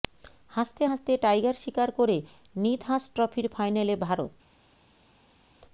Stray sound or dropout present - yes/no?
no